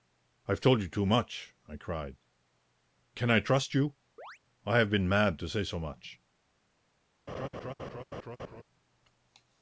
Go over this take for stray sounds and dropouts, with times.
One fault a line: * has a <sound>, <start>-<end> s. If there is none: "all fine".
* has a chirp, 4.2-4.4 s
* has a laugh, 7.3-8.6 s